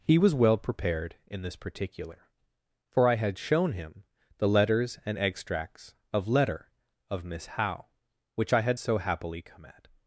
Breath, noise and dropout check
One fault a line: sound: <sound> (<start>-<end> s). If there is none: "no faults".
no faults